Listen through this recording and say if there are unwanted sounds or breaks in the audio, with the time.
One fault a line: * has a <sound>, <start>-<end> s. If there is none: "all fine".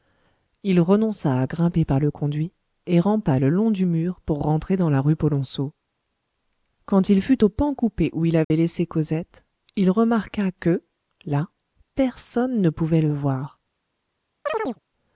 * has a dropout, 8.4-8.5 s
* has a chirp, 14.5-14.8 s